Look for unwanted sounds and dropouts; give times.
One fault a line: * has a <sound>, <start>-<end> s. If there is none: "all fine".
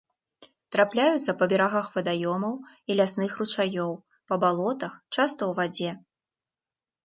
all fine